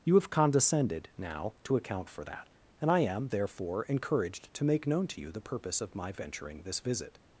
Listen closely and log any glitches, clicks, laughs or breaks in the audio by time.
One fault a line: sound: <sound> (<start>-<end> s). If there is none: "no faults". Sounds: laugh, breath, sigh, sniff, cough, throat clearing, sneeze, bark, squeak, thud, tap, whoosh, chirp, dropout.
no faults